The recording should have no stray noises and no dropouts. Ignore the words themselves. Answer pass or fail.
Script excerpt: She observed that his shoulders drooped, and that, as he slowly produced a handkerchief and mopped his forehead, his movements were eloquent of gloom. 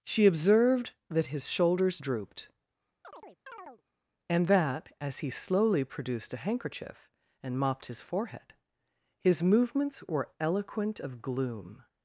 fail